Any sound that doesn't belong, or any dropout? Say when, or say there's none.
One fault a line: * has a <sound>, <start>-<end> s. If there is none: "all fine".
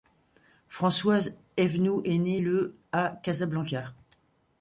all fine